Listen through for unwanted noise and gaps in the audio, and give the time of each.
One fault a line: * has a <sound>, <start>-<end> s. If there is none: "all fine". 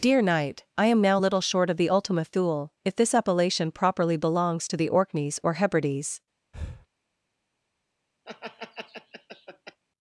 * has a breath, 6.5-6.9 s
* has a laugh, 8.3-9.8 s